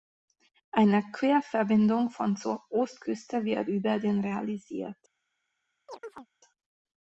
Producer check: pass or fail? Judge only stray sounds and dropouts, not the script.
fail